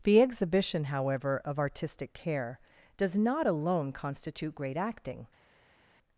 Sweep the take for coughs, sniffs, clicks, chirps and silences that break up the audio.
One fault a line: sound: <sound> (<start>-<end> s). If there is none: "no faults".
no faults